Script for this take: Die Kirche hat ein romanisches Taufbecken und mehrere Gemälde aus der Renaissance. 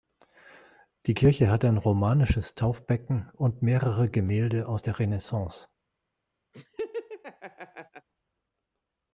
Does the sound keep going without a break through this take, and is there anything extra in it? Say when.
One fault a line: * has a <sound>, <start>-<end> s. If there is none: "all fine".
* has a laugh, 6.5-8.1 s